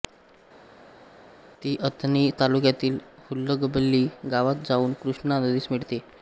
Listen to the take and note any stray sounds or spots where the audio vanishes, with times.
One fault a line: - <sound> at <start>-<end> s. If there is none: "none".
none